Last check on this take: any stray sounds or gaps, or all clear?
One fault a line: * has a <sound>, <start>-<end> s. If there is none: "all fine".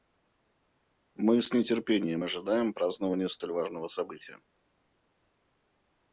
all fine